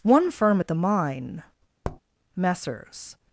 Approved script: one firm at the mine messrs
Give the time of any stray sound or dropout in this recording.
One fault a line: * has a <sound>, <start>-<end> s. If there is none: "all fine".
* has a tap, 1.8-2.0 s